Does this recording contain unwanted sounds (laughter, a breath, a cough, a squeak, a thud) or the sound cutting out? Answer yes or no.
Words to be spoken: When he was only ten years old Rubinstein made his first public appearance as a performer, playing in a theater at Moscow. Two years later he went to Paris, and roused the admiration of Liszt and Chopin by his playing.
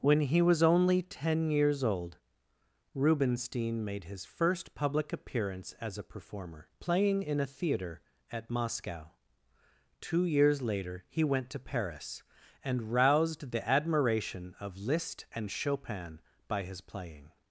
no